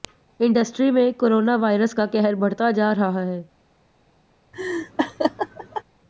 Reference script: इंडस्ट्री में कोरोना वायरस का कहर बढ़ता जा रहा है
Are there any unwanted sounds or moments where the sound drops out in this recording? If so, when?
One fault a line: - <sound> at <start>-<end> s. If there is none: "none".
- laugh at 4.5-5.8 s